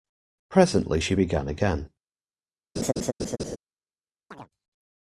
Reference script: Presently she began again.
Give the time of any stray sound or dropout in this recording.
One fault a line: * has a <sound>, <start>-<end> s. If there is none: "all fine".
* has a laugh, 2.8-3.6 s
* has a chirp, 4.3-4.5 s